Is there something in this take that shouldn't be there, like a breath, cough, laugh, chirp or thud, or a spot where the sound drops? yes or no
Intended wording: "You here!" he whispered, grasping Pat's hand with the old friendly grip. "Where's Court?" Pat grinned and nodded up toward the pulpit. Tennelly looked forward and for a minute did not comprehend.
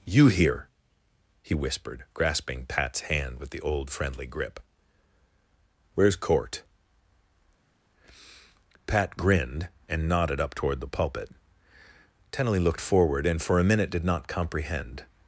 no